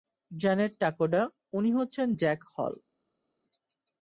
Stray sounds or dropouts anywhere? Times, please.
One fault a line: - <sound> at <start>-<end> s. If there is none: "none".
none